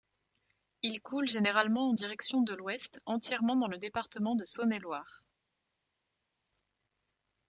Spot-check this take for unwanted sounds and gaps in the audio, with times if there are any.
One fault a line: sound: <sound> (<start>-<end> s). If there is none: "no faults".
no faults